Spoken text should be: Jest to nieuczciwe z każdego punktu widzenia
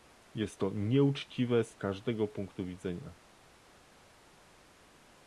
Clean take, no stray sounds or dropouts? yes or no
yes